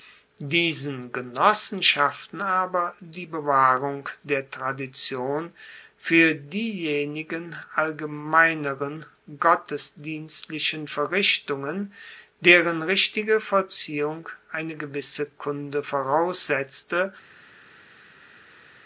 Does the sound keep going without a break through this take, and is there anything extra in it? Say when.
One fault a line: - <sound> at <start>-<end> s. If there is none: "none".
none